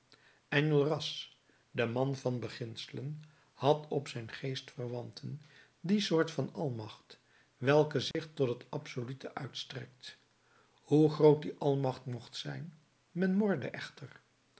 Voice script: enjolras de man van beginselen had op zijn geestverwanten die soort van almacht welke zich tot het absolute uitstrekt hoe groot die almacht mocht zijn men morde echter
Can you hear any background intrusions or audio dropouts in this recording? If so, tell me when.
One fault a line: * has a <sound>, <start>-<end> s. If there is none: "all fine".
* has a dropout, 8.1-8.1 s